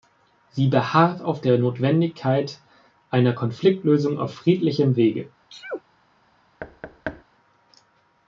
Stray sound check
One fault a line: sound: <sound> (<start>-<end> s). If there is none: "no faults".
sound: sneeze (5.5-5.8 s)
sound: thud (6.6-7.2 s)